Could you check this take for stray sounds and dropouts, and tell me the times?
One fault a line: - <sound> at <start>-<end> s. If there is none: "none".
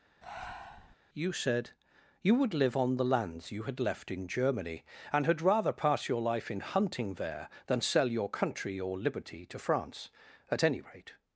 - breath at 0.2-1.0 s